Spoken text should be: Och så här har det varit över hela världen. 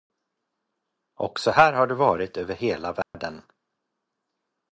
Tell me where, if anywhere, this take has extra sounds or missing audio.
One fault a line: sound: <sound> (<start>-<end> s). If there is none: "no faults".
sound: dropout (3.0-3.1 s)